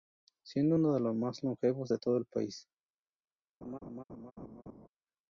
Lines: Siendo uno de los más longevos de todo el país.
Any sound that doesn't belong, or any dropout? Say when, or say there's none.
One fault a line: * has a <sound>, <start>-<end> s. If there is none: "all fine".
* has a laugh, 3.6-4.9 s